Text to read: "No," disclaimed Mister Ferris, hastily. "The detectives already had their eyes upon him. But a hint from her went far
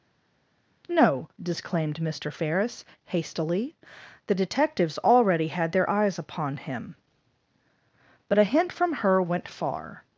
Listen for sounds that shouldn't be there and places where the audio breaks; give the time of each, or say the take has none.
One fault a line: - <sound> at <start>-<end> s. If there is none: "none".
none